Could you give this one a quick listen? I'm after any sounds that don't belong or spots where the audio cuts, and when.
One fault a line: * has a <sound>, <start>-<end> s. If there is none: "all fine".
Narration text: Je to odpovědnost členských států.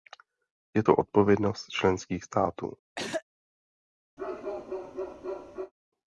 * has a throat clearing, 3.0-3.2 s
* has a bark, 4.2-5.7 s